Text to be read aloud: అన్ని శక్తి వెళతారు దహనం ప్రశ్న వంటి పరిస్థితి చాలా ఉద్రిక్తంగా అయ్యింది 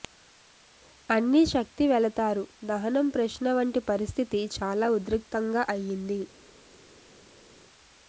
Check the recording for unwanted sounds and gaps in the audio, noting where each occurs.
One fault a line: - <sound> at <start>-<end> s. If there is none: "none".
none